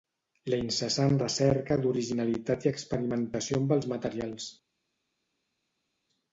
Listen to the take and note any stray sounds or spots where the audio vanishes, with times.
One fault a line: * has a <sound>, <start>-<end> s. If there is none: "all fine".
all fine